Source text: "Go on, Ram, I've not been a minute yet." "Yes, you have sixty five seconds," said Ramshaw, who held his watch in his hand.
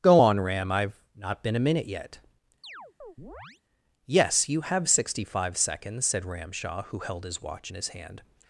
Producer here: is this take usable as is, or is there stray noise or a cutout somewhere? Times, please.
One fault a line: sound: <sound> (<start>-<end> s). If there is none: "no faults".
sound: chirp (2.6-3.6 s)